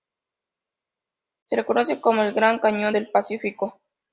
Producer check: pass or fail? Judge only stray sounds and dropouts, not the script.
pass